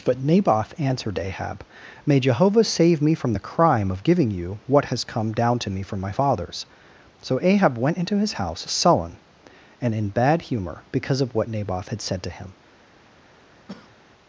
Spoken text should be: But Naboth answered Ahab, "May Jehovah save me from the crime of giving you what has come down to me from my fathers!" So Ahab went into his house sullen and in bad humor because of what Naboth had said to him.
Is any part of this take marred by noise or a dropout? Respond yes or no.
yes